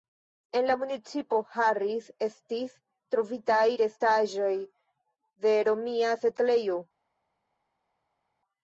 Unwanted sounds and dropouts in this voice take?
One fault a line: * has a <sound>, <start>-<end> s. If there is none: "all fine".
all fine